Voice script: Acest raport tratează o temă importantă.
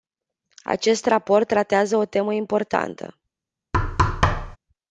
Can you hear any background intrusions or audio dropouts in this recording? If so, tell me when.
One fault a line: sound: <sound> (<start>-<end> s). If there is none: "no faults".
sound: thud (3.7-4.6 s)